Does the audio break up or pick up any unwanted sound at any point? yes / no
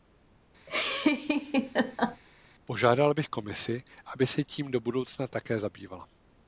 yes